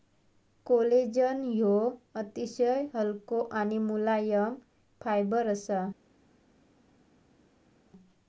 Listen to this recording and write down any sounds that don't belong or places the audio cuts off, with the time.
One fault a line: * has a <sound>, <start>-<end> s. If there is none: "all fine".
all fine